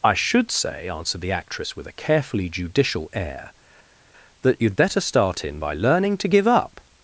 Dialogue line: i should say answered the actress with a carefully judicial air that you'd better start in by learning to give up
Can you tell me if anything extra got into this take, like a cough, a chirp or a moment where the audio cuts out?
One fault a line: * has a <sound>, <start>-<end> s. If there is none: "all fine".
all fine